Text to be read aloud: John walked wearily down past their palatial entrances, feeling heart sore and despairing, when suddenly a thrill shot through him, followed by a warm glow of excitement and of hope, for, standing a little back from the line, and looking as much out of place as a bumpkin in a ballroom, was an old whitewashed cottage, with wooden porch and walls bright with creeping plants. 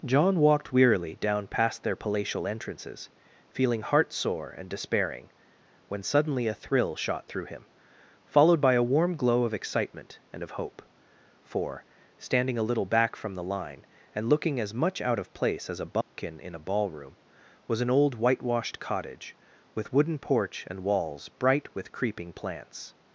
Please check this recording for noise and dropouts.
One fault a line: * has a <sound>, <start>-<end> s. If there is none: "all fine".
* has a dropout, 16.0-16.1 s